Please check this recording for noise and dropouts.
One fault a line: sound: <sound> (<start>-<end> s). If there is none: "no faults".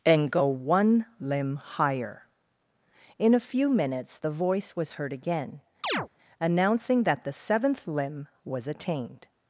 sound: chirp (5.8-6.1 s)